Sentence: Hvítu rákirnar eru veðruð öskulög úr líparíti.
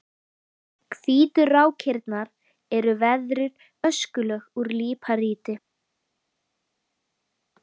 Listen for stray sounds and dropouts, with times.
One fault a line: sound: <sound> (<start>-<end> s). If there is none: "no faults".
no faults